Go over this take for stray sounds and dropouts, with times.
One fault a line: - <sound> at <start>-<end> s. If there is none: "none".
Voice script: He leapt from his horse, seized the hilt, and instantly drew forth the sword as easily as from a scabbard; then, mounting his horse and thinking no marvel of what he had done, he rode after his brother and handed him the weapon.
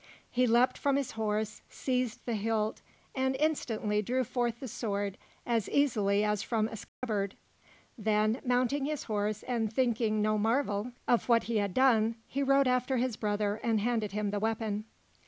- dropout at 6.9-7.0 s